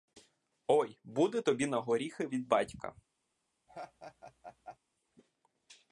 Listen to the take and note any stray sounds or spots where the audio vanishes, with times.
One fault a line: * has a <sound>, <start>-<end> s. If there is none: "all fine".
* has a laugh, 3.7-4.8 s